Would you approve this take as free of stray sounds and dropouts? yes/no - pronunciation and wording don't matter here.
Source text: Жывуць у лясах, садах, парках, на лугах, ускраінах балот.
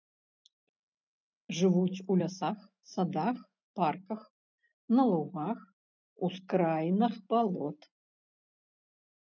yes